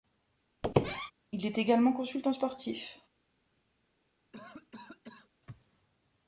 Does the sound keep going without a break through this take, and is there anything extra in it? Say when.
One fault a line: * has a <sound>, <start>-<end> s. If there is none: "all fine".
* has a squeak, 0.6-1.1 s
* has a cough, 4.3-5.3 s